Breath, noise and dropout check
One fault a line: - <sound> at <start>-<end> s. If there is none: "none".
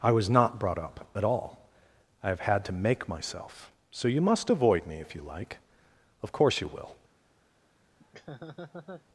- laugh at 8.0-9.1 s